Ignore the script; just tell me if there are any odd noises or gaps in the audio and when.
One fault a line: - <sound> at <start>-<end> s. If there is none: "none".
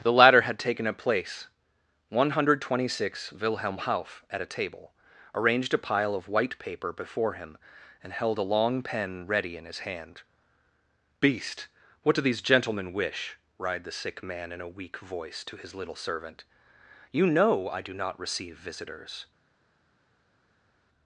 none